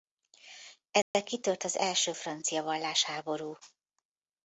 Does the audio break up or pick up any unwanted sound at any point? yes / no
yes